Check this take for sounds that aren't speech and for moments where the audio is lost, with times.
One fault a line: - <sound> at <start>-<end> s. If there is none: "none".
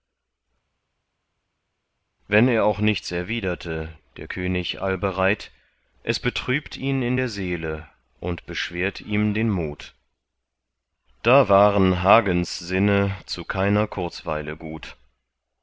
none